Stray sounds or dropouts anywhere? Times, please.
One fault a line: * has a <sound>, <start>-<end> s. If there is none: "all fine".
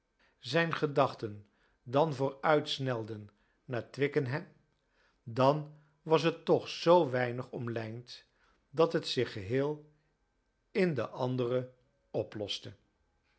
all fine